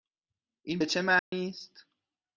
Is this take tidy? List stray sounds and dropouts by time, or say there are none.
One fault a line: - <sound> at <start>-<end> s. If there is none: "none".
- dropout at 1.2-1.3 s